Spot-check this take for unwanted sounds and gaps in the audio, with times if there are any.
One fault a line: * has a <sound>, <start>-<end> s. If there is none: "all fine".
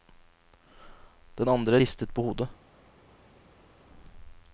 all fine